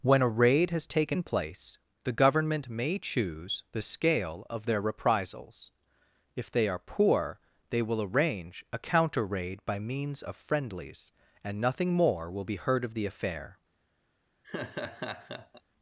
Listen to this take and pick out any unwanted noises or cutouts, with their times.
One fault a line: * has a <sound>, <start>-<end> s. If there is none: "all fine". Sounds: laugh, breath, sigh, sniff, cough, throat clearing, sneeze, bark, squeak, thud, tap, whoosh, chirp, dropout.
* has a laugh, 14.4-15.6 s